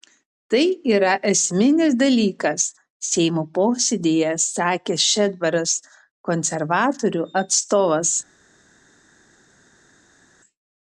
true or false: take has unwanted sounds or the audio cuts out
false